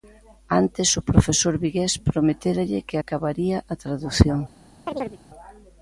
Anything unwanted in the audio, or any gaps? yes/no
yes